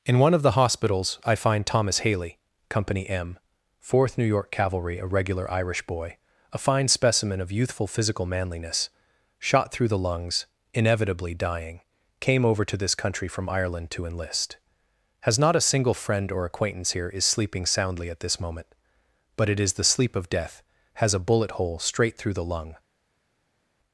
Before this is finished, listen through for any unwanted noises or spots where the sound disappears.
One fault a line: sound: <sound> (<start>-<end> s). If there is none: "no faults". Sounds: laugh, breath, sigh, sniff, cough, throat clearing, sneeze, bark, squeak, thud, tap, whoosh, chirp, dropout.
no faults